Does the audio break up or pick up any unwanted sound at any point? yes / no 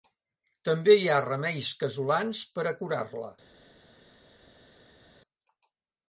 no